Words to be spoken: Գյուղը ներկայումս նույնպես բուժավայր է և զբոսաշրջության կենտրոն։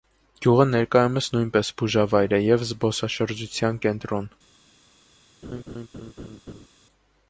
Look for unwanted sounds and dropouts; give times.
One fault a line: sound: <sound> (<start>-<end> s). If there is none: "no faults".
sound: laugh (5.4-6.7 s)